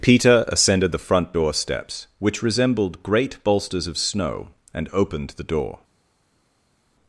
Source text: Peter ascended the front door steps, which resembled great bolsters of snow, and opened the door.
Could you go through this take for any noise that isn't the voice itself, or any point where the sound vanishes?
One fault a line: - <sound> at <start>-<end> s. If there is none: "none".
none